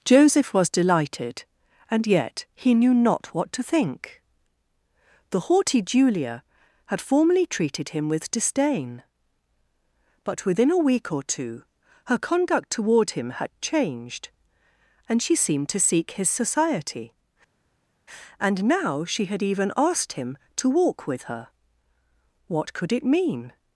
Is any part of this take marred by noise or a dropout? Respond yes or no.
no